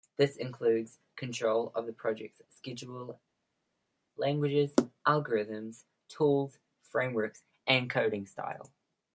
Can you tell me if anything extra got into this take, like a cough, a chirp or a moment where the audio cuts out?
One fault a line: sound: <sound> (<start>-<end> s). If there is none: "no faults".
no faults